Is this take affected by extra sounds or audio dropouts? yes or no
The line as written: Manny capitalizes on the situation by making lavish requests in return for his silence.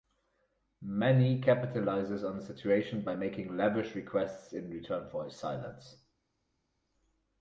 no